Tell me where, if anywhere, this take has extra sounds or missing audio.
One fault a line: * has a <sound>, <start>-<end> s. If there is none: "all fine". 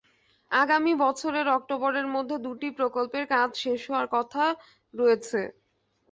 all fine